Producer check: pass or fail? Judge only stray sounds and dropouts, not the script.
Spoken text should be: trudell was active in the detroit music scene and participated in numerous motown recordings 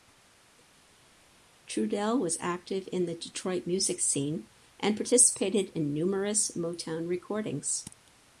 pass